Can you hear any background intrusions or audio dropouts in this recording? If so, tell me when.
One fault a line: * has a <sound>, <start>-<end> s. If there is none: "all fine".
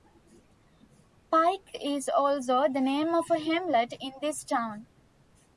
all fine